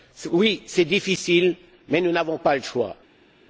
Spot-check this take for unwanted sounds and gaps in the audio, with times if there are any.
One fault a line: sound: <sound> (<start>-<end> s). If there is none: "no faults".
no faults